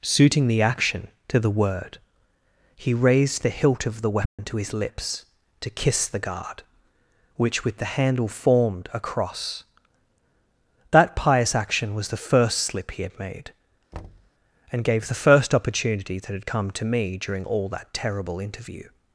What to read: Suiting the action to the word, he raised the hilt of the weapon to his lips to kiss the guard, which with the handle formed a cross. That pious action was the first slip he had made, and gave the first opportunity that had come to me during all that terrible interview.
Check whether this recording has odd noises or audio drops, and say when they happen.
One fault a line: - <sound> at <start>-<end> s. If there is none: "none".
- dropout at 4.3-4.4 s
- thud at 13.9-14.3 s